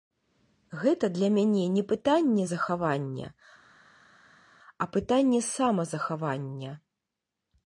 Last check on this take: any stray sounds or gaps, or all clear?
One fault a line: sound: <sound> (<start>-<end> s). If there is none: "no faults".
no faults